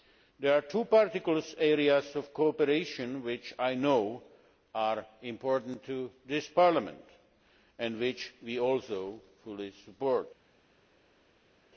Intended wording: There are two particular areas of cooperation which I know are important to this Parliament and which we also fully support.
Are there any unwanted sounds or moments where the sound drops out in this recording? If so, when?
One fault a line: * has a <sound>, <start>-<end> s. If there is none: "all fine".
all fine